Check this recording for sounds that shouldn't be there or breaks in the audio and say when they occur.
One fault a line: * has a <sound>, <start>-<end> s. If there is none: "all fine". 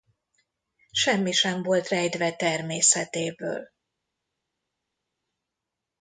all fine